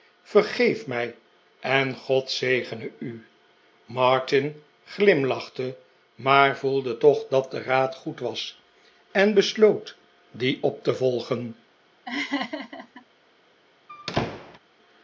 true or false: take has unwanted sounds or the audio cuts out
true